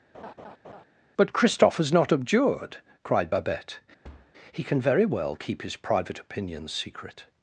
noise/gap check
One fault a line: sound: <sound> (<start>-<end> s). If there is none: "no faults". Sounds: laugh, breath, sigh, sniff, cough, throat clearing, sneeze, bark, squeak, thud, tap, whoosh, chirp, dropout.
sound: laugh (0.1-0.8 s)
sound: thud (4.0-4.3 s)